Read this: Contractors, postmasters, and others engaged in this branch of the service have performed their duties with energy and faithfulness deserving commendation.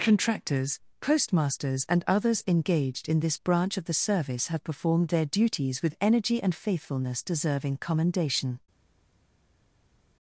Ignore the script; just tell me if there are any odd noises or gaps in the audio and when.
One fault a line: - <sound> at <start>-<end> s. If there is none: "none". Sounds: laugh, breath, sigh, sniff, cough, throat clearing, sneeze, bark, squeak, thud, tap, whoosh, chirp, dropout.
none